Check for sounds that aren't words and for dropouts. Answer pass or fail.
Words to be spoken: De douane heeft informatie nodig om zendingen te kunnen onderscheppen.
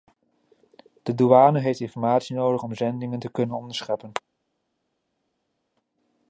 pass